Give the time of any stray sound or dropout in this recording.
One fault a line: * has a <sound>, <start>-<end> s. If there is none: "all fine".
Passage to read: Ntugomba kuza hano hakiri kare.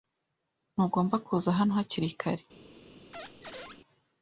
* has a squeak, 3.1-3.8 s